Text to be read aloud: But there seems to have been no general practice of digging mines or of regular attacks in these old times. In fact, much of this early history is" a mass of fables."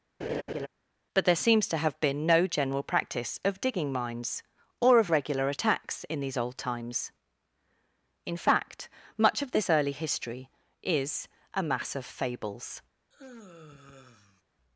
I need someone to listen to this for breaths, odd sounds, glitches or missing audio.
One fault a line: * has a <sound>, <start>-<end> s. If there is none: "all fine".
* has a laugh, 0.2-0.7 s
* has a sigh, 13.1-14.4 s